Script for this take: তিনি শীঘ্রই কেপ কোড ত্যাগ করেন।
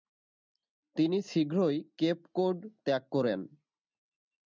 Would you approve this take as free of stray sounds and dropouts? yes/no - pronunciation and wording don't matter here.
yes